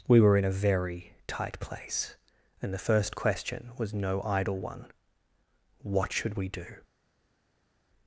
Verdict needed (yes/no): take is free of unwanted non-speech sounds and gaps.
yes